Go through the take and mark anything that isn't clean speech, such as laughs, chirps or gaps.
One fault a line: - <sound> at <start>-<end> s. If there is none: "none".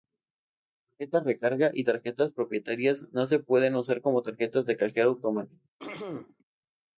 - throat clearing at 5.8-6.4 s